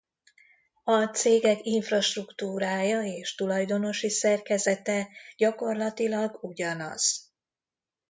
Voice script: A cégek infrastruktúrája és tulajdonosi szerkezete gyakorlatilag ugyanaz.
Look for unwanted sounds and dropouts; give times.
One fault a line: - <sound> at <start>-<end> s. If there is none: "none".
none